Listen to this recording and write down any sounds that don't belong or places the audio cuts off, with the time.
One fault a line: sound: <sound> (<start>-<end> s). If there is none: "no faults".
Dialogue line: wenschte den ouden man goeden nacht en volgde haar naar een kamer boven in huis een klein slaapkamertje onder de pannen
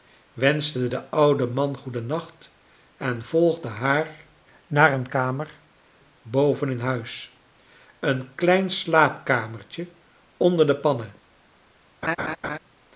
sound: laugh (12.0-12.6 s)